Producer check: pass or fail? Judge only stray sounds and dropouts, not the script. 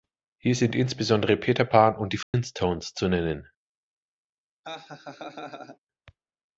fail